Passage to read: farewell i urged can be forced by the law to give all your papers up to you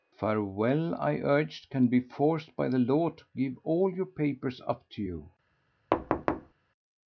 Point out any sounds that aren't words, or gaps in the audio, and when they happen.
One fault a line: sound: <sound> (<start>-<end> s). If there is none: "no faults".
sound: thud (5.9-6.5 s)